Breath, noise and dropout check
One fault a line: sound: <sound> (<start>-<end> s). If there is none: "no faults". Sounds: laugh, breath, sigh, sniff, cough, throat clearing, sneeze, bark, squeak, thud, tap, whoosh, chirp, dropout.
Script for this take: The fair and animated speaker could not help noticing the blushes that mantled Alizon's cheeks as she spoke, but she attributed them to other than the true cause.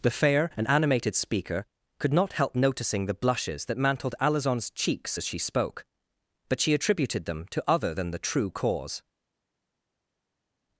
no faults